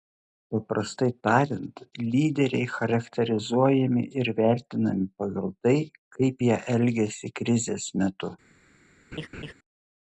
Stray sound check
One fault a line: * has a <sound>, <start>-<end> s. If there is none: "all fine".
* has a laugh, 9.1-9.5 s